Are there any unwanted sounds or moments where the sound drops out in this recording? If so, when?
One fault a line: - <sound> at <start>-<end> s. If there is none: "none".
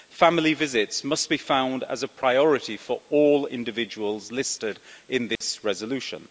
- dropout at 5.4-5.4 s